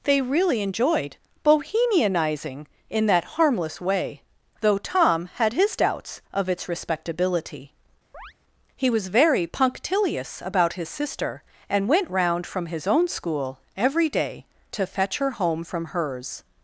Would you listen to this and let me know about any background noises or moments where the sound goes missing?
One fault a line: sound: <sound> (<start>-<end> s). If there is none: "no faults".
sound: chirp (8.1-8.3 s)